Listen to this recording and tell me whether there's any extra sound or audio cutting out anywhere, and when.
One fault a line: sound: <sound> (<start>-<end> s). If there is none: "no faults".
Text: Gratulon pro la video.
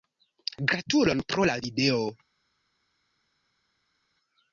no faults